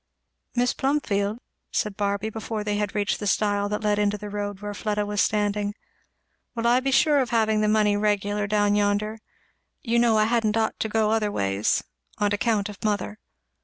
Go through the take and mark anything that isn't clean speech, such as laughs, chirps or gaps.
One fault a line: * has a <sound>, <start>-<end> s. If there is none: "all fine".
all fine